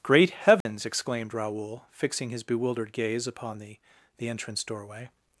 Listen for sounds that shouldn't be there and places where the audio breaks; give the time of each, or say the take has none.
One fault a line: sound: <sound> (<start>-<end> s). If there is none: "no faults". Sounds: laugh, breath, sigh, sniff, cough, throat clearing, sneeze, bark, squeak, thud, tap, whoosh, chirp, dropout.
sound: dropout (0.6-0.7 s)